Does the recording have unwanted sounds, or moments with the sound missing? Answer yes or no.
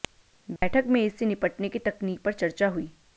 yes